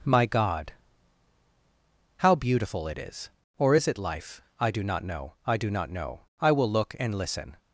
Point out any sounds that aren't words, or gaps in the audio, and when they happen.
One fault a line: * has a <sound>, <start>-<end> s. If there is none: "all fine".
all fine